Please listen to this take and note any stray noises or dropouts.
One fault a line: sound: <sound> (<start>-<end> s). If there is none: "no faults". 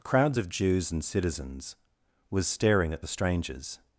no faults